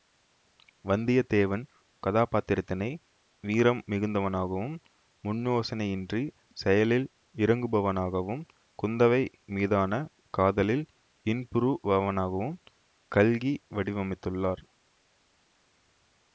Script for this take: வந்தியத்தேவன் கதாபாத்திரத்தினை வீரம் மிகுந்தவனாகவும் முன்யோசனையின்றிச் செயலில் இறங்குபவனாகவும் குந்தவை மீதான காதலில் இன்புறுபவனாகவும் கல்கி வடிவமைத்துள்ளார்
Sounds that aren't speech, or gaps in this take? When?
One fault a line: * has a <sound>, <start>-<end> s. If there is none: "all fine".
all fine